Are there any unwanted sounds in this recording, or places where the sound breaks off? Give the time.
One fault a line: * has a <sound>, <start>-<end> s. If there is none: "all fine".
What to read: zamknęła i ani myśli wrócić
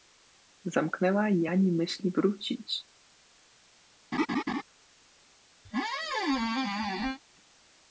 * has a laugh, 4.1-4.6 s
* has a squeak, 5.6-7.2 s